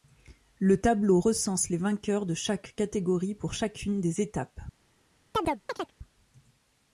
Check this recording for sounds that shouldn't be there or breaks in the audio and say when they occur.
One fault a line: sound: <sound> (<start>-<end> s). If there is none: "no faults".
sound: chirp (5.3-5.9 s)